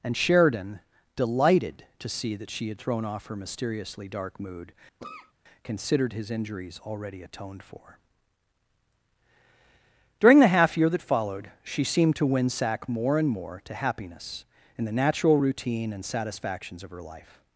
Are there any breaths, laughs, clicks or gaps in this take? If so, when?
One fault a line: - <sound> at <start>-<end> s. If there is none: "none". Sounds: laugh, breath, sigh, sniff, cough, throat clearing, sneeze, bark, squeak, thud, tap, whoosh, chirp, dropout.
- cough at 5.0-5.3 s